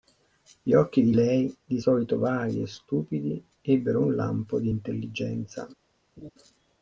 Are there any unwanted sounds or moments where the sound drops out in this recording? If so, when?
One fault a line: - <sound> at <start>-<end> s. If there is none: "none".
- laugh at 6.2-6.3 s